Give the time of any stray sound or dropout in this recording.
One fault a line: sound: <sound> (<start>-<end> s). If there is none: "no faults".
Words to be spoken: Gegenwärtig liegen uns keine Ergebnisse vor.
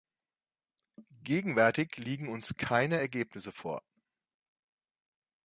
no faults